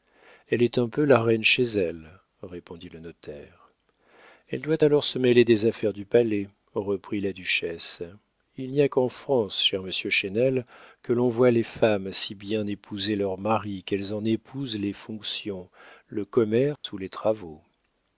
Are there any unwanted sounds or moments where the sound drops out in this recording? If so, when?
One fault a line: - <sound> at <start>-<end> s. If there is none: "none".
- dropout at 16.8-16.8 s